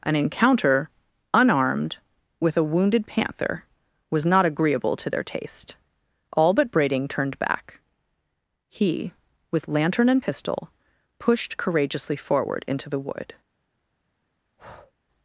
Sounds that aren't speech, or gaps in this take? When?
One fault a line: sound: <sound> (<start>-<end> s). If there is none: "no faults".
sound: breath (14.6-14.9 s)